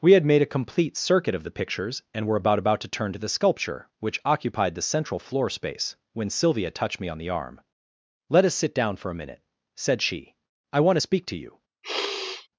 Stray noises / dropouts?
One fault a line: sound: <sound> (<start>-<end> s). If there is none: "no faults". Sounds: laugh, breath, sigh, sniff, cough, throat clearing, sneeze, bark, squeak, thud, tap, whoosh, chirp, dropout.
sound: sniff (11.8-12.5 s)